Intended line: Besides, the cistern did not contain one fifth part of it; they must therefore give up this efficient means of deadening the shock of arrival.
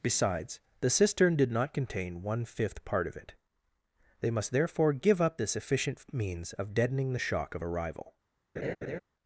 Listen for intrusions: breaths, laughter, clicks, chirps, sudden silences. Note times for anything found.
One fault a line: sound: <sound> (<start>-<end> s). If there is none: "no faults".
sound: laugh (8.6-9.0 s)